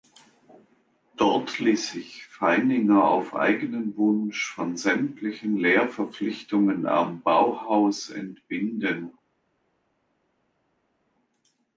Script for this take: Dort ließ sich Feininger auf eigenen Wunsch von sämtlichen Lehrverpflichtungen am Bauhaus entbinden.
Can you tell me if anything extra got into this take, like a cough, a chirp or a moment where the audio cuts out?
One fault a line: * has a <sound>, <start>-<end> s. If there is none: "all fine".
all fine